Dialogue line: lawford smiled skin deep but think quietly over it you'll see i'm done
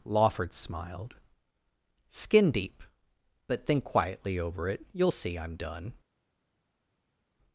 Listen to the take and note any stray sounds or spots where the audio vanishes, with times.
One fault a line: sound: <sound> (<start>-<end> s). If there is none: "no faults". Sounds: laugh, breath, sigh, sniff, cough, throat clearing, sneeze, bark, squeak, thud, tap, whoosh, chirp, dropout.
no faults